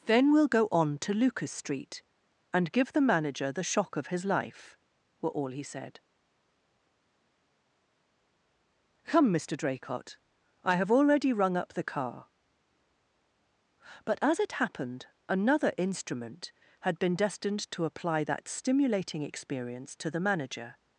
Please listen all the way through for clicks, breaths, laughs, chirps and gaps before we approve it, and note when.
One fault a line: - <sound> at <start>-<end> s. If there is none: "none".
none